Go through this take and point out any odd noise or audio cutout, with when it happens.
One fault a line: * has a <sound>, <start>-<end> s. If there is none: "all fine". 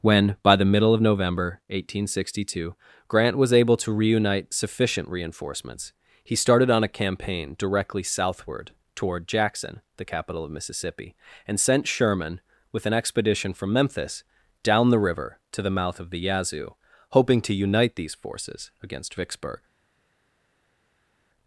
all fine